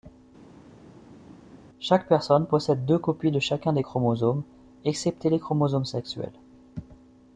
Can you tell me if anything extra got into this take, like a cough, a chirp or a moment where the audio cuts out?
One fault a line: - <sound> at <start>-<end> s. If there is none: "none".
none